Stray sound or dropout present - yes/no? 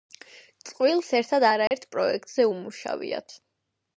yes